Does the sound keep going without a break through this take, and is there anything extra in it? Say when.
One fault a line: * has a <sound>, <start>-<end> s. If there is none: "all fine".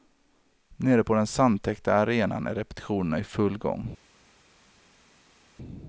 all fine